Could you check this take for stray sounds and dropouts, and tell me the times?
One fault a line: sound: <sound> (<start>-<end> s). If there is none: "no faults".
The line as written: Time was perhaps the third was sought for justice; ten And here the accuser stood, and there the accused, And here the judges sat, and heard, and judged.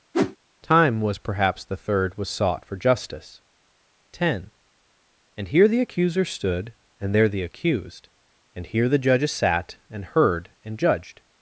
sound: whoosh (0.1-0.4 s)